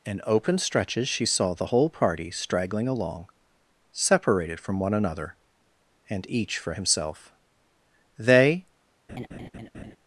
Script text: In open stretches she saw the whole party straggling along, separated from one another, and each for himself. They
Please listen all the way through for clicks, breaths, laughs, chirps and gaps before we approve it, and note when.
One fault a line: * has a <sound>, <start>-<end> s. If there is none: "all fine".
* has a laugh, 9.1-10.0 s